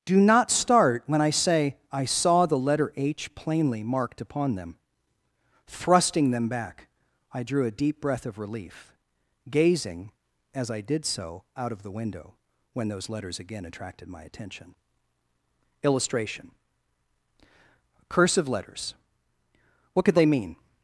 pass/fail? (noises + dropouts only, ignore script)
pass